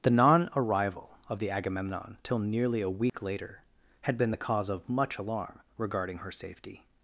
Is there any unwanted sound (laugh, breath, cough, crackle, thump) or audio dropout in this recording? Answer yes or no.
yes